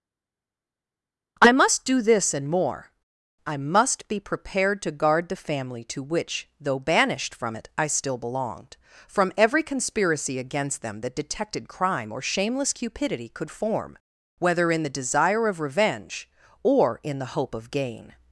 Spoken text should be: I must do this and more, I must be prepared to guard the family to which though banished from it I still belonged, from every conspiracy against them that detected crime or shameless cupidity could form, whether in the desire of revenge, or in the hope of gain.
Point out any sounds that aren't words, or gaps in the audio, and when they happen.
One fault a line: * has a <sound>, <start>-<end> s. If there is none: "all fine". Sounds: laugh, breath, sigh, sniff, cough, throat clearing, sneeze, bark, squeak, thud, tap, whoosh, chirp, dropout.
all fine